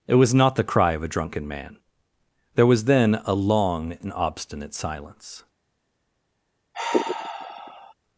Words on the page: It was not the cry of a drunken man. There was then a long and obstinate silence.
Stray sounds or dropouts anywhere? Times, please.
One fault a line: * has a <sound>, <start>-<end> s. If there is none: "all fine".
* has a sigh, 6.7-7.9 s